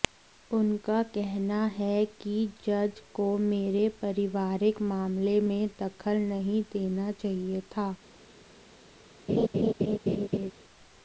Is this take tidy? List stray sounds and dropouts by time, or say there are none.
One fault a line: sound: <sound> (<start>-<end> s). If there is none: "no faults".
sound: laugh (9.3-10.5 s)